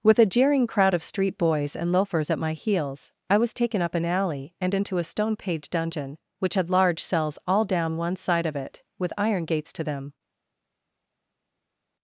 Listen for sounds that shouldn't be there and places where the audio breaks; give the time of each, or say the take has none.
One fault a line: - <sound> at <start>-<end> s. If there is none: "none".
none